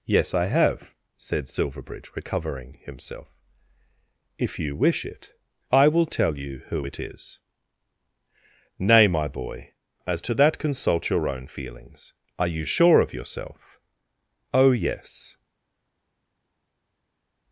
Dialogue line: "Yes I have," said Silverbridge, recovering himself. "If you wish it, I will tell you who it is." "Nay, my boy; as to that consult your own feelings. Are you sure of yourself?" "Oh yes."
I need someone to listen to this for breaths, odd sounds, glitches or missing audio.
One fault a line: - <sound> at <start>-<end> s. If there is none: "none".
none